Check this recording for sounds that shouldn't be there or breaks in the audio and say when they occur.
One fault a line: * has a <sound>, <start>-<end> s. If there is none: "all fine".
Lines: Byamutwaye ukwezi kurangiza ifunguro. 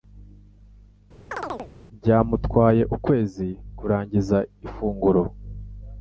* has a chirp, 1.3-1.7 s